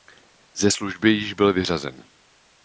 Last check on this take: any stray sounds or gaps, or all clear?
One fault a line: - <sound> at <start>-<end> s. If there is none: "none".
none